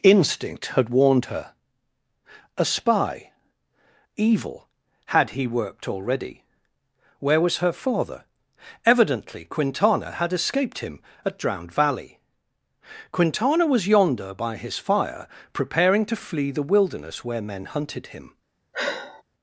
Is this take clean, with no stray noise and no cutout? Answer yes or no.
no